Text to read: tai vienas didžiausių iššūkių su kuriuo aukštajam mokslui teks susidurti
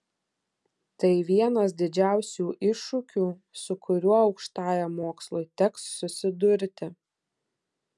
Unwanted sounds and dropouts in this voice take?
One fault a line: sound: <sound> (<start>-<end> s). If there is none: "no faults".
no faults